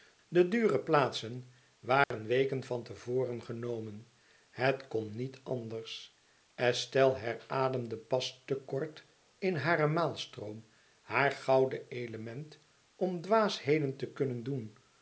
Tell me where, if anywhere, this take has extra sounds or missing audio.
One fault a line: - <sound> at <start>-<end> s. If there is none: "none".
- dropout at 2.0-2.1 s